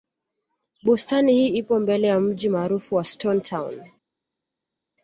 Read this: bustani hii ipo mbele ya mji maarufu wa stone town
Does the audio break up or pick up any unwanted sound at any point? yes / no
no